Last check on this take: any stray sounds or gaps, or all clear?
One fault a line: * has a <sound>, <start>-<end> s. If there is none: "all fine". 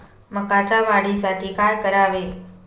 all fine